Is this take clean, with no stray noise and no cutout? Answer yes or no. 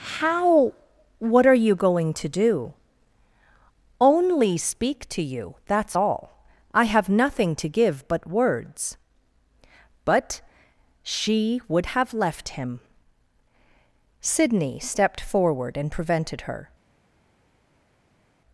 yes